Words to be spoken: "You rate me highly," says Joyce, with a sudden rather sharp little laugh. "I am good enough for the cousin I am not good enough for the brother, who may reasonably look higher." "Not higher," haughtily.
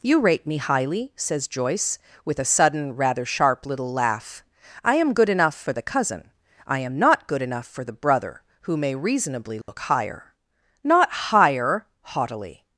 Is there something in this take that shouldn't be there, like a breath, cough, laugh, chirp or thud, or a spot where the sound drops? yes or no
yes